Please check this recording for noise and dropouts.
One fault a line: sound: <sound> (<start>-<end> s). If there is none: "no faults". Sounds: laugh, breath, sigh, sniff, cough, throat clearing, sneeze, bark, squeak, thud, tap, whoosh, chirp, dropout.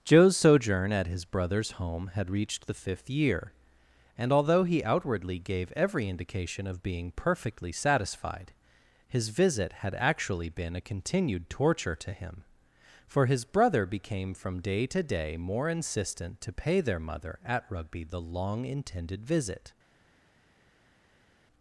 no faults